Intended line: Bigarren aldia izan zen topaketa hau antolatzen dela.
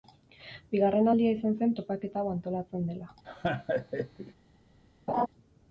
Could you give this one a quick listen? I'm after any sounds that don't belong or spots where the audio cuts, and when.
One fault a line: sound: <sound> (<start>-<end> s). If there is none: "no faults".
sound: laugh (3.2-4.3 s)
sound: laugh (5.1-5.3 s)